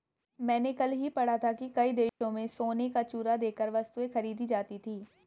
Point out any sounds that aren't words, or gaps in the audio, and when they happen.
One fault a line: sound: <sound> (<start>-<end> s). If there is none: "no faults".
sound: dropout (2.1-2.2 s)